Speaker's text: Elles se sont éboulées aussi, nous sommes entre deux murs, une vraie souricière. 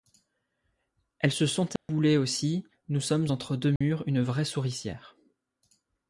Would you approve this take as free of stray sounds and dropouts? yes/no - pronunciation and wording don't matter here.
no